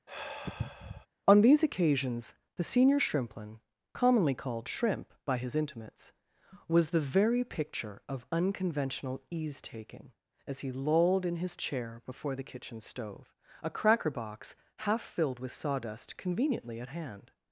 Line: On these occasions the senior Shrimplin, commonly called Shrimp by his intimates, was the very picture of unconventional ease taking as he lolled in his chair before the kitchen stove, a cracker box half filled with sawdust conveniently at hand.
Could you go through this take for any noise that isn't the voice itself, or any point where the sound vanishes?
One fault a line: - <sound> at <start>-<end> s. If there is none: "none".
- sigh at 0.1-1.1 s